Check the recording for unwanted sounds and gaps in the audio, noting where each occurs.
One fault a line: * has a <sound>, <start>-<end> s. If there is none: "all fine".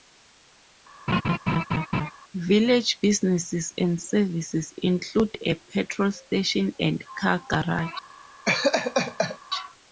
* has a laugh, 1.1-2.1 s
* has a laugh, 8.5-9.4 s